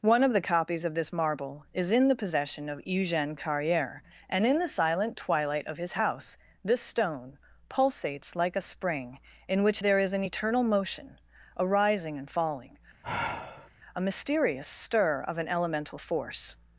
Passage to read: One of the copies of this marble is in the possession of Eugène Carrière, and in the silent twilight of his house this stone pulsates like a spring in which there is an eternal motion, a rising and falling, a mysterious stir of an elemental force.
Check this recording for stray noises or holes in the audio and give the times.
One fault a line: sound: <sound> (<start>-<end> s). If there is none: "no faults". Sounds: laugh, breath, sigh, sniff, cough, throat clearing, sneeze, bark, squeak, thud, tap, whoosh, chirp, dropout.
sound: sigh (13.0-13.7 s)